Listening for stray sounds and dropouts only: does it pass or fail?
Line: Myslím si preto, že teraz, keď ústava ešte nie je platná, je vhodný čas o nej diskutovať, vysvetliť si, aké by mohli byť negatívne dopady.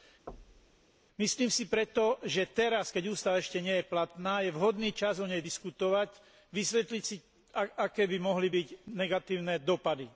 fail